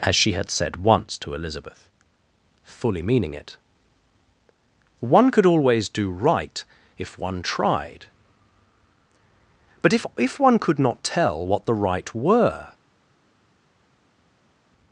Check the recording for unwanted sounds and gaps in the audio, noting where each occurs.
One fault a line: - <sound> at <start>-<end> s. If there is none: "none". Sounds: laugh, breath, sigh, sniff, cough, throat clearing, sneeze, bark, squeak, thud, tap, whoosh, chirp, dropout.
none